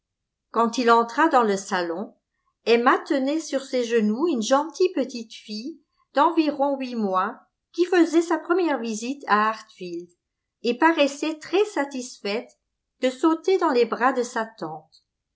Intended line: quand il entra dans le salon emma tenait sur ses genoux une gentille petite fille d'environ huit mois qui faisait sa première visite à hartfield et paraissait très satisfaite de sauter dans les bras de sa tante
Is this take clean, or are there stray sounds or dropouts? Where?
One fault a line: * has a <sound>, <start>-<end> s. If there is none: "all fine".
all fine